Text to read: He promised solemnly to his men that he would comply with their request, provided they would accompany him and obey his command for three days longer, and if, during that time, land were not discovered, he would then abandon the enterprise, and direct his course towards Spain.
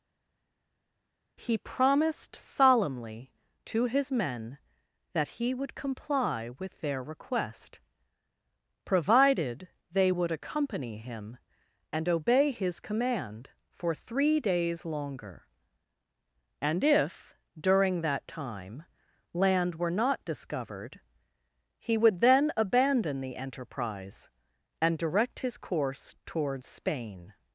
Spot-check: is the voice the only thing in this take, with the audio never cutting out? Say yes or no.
yes